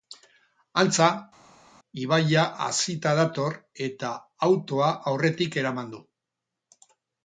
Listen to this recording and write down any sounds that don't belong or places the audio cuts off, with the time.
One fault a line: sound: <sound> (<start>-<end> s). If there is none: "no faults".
no faults